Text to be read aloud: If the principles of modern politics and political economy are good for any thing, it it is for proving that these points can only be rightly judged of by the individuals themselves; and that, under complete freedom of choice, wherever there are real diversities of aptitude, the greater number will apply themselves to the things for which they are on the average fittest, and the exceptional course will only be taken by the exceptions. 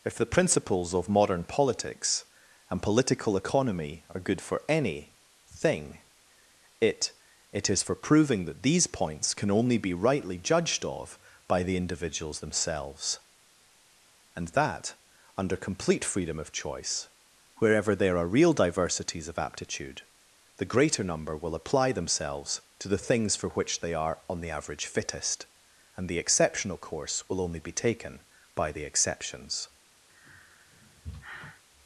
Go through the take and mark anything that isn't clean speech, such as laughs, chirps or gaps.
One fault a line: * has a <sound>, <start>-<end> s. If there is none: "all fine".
* has a sigh, 30.1-31.6 s